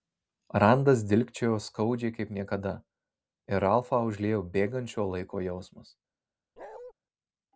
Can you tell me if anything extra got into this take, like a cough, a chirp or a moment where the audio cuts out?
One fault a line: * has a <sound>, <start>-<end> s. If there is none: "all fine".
* has a bark, 6.6-6.9 s